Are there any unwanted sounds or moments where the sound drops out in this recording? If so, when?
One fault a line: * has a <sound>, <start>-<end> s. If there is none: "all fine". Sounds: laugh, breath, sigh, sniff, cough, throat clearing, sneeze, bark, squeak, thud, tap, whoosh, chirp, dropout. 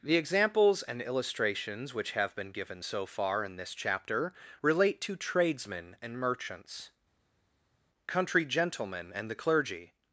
all fine